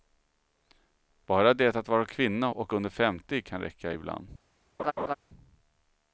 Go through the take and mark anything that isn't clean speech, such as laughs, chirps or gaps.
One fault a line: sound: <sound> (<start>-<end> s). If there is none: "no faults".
sound: laugh (4.8-5.1 s)